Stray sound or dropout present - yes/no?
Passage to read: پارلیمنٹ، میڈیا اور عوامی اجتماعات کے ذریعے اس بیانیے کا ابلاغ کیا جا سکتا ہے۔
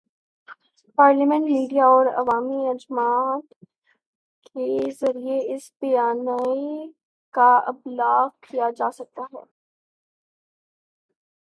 no